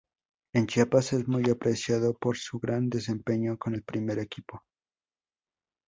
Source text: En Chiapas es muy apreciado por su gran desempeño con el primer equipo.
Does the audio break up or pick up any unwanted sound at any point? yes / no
no